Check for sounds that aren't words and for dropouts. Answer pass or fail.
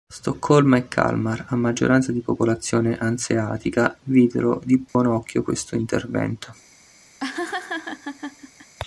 fail